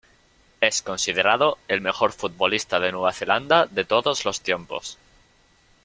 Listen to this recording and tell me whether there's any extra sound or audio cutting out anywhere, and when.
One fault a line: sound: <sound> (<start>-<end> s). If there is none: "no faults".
no faults